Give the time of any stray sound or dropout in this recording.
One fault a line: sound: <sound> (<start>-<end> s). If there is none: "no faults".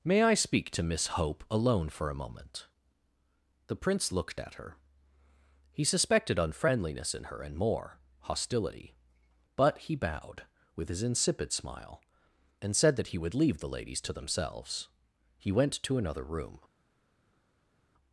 no faults